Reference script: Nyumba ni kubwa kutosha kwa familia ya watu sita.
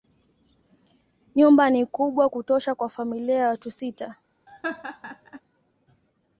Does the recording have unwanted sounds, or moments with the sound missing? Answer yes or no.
yes